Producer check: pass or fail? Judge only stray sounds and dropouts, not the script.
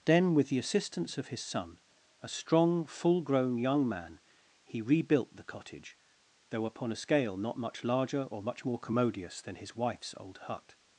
pass